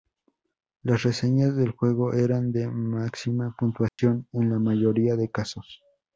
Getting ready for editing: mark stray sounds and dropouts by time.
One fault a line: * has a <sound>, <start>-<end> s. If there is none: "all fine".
* has a dropout, 3.9-4.0 s